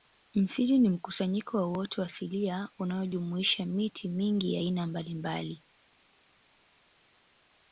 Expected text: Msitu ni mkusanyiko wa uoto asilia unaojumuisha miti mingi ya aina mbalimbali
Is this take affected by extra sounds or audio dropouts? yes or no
no